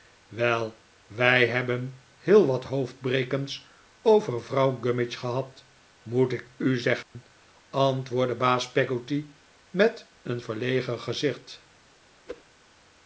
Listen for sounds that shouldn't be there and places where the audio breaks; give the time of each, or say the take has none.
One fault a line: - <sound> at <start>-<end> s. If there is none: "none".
- dropout at 7.0-7.1 s
- whoosh at 12.3-12.4 s